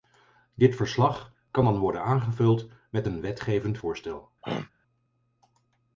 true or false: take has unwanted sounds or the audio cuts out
true